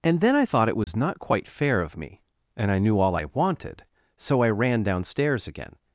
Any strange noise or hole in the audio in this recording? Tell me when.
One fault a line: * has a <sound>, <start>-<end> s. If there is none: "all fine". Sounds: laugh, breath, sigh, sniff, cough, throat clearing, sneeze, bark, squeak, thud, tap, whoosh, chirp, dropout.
* has a dropout, 0.8-0.9 s